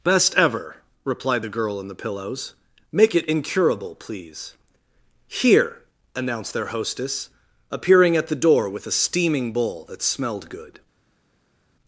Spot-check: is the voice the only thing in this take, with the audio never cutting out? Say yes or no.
yes